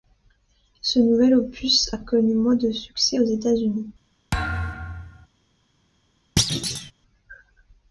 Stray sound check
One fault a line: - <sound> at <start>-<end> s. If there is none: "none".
- thud at 4.3-5.3 s
- thud at 6.4-6.9 s